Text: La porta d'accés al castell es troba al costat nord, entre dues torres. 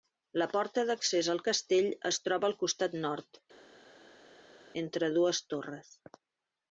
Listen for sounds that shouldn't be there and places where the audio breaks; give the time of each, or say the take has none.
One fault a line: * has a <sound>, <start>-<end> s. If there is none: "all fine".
all fine